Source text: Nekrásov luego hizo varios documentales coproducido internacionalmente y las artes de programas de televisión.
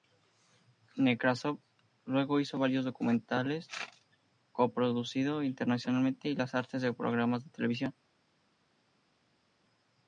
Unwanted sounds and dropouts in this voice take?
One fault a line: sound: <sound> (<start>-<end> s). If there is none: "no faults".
no faults